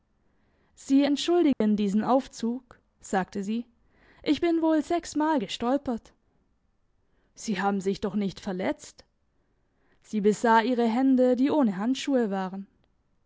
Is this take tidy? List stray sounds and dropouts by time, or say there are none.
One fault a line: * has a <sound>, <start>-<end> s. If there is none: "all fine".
* has a dropout, 1.5-1.6 s